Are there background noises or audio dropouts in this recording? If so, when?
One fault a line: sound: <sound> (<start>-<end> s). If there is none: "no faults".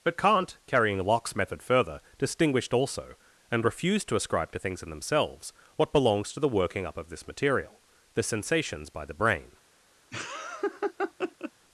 sound: laugh (10.1-11.5 s)